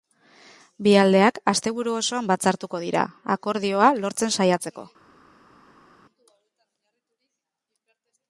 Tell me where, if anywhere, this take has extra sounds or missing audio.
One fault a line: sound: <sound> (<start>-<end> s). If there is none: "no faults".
no faults